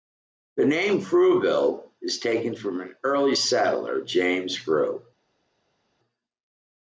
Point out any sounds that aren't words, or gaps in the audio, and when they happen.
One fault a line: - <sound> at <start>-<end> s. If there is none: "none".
none